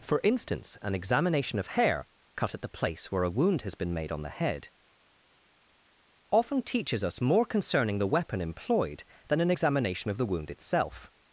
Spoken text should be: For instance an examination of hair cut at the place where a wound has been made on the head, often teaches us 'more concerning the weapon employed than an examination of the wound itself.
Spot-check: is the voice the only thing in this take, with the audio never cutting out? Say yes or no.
yes